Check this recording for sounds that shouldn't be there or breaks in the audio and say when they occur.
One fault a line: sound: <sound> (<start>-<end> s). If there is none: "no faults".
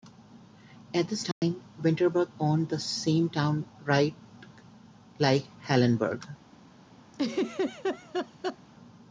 sound: dropout (1.3-1.4 s)
sound: laugh (7.1-8.6 s)